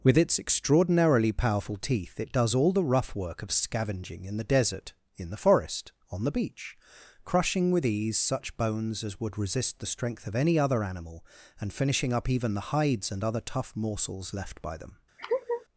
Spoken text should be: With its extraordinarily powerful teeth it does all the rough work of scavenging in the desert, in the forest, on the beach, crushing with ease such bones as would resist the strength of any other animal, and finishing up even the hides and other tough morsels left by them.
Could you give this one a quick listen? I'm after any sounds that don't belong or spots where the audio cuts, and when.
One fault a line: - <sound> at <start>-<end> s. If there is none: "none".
- laugh at 15.2-15.7 s